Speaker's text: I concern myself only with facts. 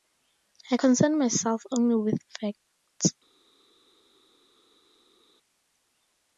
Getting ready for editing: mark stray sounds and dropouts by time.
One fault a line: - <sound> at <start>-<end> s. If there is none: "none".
none